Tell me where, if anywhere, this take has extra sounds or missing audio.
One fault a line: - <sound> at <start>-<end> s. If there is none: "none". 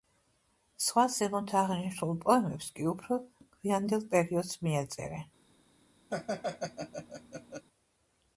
- laugh at 6.1-7.6 s